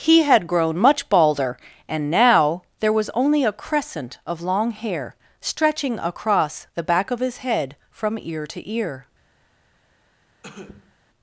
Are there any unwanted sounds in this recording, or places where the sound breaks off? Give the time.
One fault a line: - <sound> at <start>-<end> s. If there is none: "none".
- cough at 10.4-11.0 s